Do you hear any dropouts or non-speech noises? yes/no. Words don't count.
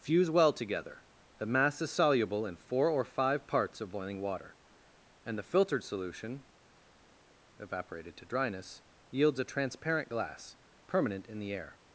no